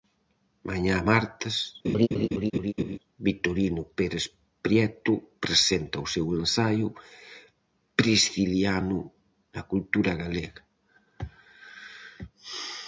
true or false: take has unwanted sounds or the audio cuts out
true